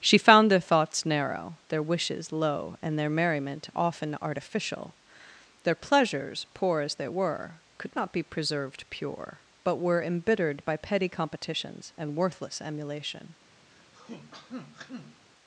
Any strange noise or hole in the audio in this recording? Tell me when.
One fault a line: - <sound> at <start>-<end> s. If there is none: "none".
- throat clearing at 13.7-15.2 s